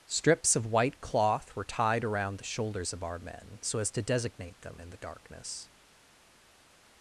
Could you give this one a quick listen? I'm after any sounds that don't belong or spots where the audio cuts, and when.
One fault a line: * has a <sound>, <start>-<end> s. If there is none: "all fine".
all fine